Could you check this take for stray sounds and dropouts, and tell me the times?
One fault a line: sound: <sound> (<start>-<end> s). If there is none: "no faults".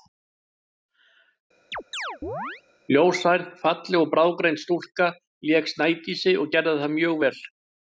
sound: chirp (1.7-2.6 s)